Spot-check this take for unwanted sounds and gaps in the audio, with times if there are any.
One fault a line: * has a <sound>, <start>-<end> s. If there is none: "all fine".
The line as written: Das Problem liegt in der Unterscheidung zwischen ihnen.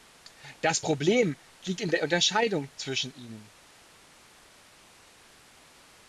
all fine